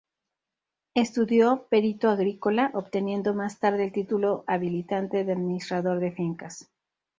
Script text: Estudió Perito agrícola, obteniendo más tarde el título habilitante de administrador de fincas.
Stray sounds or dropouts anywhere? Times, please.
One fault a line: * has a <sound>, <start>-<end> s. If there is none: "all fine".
all fine